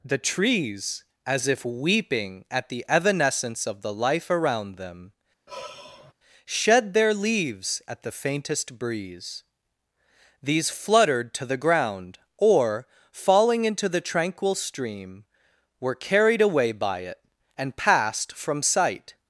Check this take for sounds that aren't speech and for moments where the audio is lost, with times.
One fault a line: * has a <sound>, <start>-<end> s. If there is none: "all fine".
* has a sigh, 5.5-6.1 s